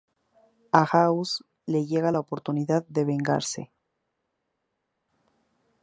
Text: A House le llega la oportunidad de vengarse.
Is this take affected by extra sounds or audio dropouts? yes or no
no